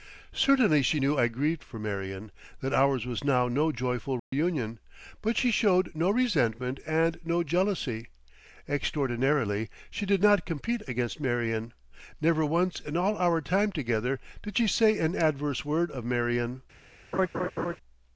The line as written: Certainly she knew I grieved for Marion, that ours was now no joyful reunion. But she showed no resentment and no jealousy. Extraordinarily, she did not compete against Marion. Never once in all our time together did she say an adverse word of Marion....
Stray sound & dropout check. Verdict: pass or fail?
fail